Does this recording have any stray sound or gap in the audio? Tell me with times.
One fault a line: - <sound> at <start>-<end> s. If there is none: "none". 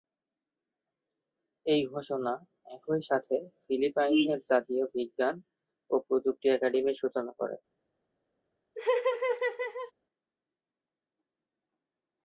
- laugh at 8.7-9.9 s